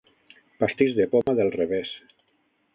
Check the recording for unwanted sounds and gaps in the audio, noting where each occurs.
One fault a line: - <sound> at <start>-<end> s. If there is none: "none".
- dropout at 1.2-1.3 s